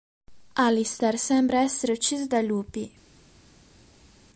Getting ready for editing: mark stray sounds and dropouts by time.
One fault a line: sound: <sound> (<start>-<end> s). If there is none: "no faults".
no faults